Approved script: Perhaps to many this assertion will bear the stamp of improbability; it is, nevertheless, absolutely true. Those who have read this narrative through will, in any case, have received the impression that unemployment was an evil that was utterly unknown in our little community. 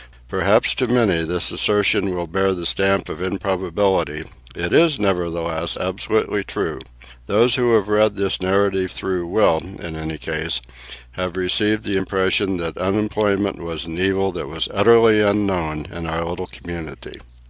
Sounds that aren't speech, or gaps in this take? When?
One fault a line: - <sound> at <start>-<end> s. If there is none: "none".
none